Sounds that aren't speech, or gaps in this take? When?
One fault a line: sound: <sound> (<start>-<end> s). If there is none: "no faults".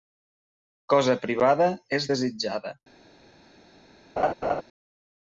sound: laugh (4.2-4.6 s)